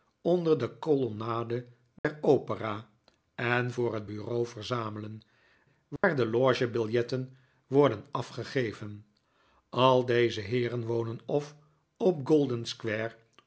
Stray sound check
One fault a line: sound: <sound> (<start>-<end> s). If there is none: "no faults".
sound: dropout (2.0-2.0 s)
sound: dropout (6.0-6.0 s)